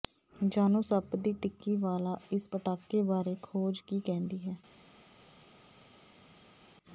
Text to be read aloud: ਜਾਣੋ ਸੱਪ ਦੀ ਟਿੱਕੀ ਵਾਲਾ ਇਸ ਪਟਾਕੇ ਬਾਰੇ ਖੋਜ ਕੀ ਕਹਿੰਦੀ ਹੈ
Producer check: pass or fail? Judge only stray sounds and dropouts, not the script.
pass